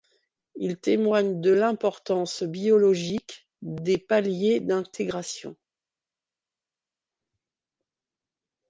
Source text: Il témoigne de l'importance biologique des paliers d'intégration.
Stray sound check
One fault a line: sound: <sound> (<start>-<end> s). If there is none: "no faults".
no faults